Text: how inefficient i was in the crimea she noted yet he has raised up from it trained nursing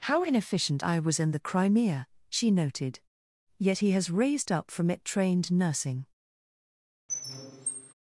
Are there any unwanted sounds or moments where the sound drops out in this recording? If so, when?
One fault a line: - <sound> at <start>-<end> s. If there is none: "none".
- squeak at 7.1-7.9 s